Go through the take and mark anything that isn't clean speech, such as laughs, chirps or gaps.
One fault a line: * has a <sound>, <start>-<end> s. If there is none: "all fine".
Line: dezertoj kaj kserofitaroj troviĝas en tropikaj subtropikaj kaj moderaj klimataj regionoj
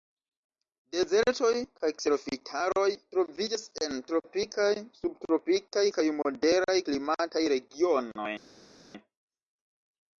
all fine